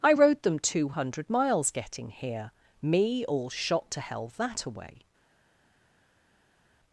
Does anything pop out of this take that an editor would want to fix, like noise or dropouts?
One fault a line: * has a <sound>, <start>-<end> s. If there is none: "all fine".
all fine